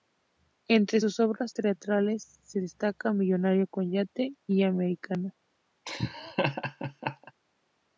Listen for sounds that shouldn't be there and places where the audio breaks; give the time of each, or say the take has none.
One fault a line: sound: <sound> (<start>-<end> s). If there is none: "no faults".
sound: laugh (5.9-7.3 s)